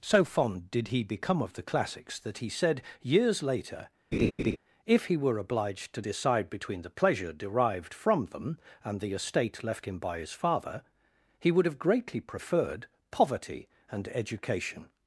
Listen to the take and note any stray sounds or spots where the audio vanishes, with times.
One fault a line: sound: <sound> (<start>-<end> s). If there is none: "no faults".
sound: laugh (4.1-4.6 s)